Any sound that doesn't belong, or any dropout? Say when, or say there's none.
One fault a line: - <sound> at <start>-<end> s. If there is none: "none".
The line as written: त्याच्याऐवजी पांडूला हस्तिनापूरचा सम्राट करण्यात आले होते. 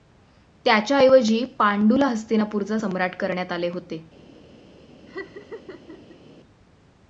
- laugh at 5.1-6.2 s